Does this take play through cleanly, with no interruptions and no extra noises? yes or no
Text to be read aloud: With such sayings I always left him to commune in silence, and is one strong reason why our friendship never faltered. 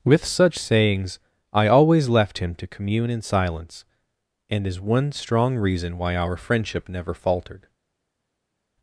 yes